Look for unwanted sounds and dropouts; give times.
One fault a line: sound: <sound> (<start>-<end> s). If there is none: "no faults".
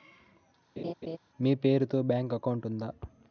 sound: laugh (0.8-1.2 s)